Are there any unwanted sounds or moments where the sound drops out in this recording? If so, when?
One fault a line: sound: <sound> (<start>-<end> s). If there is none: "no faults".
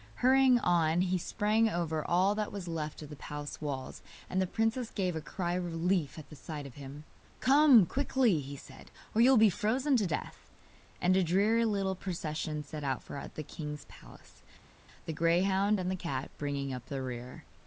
no faults